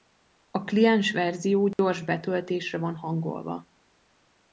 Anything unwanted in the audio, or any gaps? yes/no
yes